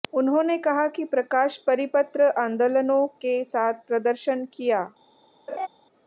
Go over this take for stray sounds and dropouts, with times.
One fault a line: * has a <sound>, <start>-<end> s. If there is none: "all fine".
* has a laugh, 5.5-5.7 s